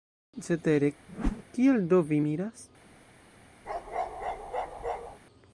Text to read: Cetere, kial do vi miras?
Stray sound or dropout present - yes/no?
yes